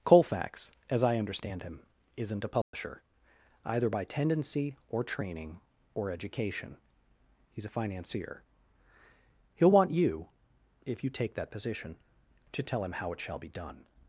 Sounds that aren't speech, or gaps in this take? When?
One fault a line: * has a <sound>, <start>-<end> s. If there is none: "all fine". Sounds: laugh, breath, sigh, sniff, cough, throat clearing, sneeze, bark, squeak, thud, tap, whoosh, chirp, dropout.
* has a dropout, 2.6-2.7 s